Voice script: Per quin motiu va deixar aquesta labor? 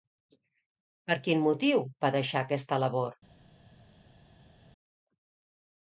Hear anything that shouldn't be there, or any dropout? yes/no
no